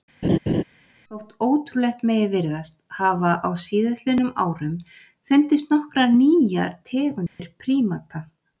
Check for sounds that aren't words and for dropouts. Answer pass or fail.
fail